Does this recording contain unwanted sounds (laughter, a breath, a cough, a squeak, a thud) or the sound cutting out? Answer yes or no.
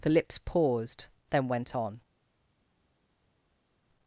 no